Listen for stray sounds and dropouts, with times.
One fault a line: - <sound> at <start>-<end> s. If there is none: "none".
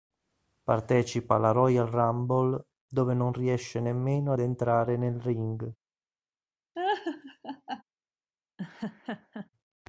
- laugh at 6.7-7.8 s
- laugh at 8.6-9.5 s